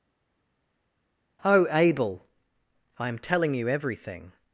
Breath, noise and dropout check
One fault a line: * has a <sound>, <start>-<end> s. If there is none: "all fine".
all fine